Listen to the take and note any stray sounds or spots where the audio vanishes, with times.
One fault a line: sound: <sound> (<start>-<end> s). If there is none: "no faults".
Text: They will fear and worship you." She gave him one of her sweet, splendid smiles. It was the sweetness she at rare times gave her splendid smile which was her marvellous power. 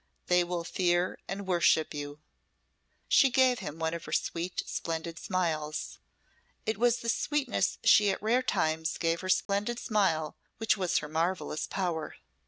sound: dropout (9.5-9.5 s)